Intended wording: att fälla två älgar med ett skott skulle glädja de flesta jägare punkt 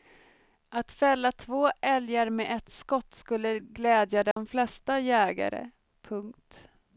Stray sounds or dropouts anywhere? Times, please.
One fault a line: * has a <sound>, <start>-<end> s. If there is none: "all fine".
* has a dropout, 4.3-4.4 s